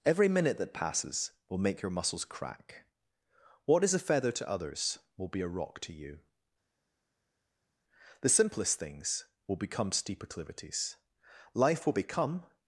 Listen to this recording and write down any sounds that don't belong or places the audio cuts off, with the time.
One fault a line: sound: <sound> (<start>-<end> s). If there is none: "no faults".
no faults